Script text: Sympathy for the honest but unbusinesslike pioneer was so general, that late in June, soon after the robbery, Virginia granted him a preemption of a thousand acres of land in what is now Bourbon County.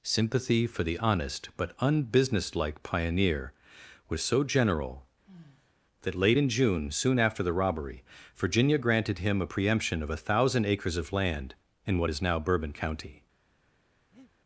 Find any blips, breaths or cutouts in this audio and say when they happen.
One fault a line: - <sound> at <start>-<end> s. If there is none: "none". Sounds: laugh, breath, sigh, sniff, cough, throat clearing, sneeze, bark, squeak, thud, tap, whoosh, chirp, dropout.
- sigh at 5.2-5.7 s
- breath at 14.1-14.3 s